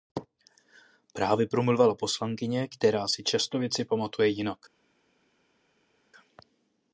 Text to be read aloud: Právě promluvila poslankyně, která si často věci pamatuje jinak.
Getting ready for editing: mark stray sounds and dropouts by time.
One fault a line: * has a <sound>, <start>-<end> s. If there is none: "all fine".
all fine